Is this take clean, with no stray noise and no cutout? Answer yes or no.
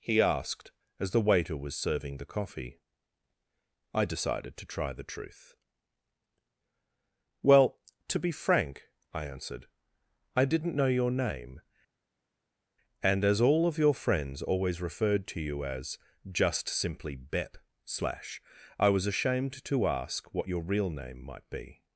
yes